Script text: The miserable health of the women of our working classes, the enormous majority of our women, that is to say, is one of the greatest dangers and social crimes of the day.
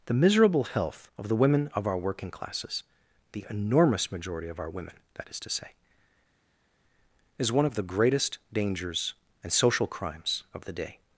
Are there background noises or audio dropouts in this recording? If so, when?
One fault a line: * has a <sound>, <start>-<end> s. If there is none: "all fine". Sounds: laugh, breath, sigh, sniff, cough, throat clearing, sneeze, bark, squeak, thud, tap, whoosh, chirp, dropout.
all fine